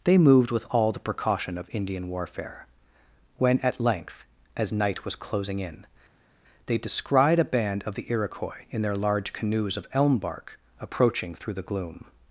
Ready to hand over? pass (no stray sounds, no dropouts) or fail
pass